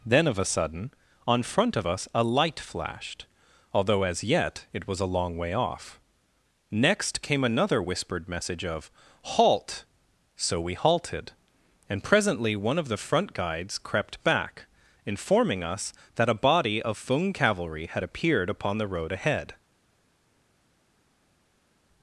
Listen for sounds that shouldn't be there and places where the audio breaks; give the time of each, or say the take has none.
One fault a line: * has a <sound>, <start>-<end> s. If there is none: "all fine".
all fine